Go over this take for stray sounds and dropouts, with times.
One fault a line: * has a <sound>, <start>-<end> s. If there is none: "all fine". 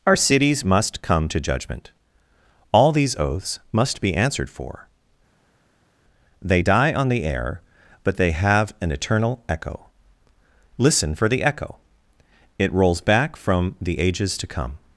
all fine